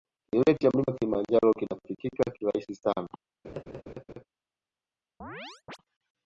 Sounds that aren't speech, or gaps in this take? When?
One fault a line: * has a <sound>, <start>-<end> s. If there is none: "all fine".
* has a laugh, 3.4-4.2 s
* has a chirp, 5.2-5.8 s